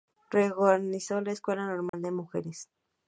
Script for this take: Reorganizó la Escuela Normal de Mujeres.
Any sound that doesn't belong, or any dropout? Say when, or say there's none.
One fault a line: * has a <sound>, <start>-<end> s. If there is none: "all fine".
* has a dropout, 1.9-1.9 s